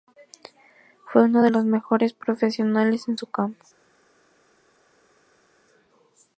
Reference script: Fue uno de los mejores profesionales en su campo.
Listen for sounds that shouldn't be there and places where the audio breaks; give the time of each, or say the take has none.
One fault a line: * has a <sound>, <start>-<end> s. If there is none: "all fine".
all fine